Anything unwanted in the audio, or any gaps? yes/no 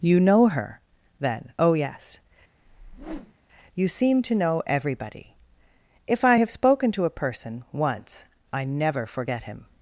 yes